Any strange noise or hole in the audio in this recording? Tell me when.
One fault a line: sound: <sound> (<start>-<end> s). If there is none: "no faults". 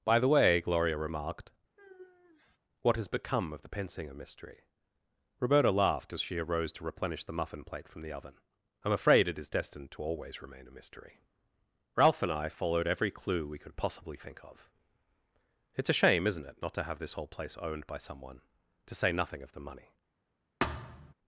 sound: sigh (1.8-2.6 s)
sound: thud (20.6-21.1 s)